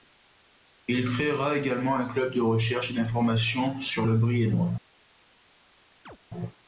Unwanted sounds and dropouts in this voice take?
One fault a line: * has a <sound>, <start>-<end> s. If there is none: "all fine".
* has a chirp, 6.1-6.2 s